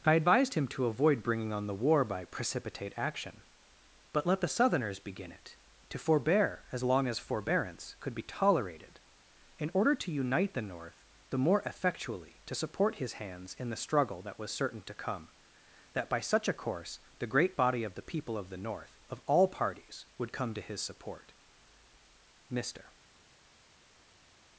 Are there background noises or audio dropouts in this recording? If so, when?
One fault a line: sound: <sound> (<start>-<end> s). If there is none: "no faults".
no faults